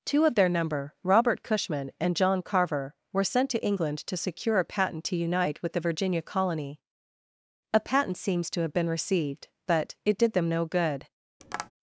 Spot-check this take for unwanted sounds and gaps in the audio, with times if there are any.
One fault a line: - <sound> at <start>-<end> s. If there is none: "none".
- tap at 11.4-11.7 s